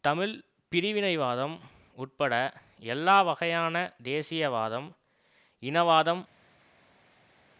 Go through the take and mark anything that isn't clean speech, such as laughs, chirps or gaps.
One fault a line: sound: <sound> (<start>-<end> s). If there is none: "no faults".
no faults